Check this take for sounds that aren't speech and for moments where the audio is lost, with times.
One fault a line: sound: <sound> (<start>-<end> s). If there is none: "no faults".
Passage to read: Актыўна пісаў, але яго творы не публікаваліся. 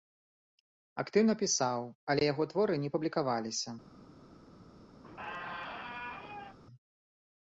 sound: squeak (5.0-6.6 s)